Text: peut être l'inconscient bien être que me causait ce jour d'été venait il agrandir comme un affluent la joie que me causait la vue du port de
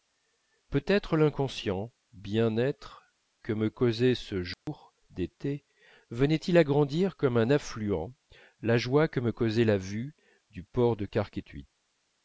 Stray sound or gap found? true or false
true